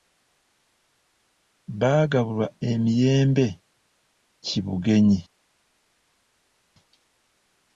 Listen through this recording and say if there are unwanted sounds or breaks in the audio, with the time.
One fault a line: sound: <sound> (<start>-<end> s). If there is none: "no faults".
no faults